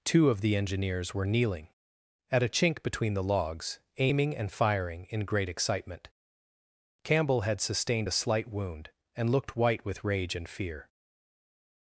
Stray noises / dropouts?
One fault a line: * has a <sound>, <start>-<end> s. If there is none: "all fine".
all fine